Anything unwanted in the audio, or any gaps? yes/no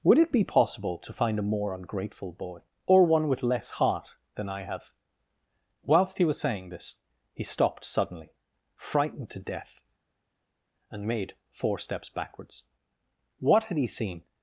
no